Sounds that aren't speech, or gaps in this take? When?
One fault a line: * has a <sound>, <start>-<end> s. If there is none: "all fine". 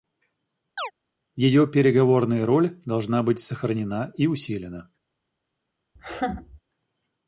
* has a chirp, 0.8-0.9 s
* has a laugh, 6.0-6.6 s